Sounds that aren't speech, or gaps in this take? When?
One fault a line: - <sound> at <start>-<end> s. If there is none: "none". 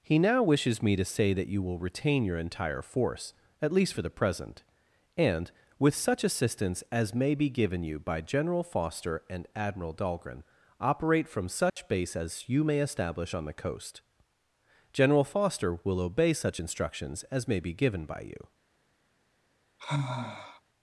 - dropout at 11.7-11.8 s
- sigh at 19.8-20.6 s